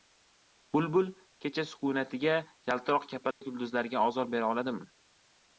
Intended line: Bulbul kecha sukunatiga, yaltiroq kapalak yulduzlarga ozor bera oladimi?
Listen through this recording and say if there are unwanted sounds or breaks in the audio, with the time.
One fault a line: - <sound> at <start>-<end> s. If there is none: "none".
- dropout at 3.3-3.4 s